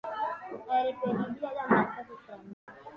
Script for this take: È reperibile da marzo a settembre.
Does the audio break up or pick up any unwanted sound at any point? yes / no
yes